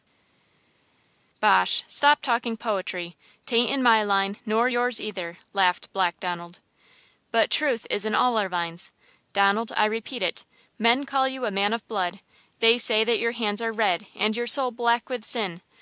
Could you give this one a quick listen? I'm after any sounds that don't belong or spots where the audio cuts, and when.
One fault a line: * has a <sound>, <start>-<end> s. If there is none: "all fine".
all fine